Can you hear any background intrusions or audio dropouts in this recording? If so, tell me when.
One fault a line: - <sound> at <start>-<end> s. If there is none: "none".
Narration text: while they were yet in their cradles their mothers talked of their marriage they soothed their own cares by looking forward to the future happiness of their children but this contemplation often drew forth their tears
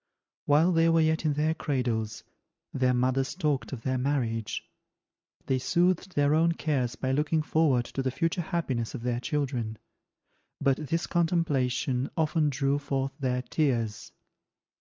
none